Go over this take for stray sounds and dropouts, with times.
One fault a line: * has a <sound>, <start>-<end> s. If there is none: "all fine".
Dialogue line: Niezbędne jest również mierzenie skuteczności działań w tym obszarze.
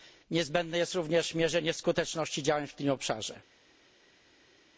all fine